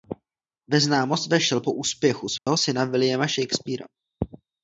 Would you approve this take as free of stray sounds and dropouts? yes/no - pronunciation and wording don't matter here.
no